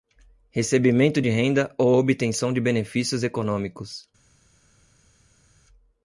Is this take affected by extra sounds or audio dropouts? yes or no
no